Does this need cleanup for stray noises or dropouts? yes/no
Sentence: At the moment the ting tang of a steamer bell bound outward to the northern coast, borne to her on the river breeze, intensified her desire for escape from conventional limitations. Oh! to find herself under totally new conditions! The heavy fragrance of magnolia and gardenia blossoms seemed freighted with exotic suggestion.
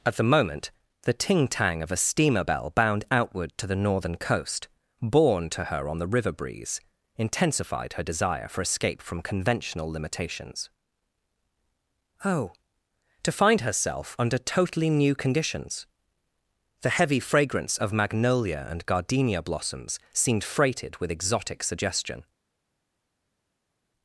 no